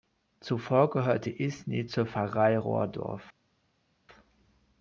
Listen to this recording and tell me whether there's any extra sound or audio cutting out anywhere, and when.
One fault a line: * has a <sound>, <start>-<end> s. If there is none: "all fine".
all fine